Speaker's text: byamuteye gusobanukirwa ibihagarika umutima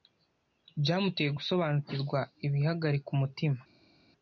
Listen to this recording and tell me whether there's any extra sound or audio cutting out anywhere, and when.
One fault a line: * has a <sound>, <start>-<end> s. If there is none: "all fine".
all fine